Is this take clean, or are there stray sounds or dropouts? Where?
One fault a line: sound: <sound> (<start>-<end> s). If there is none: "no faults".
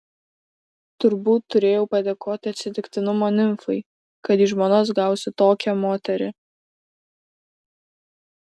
no faults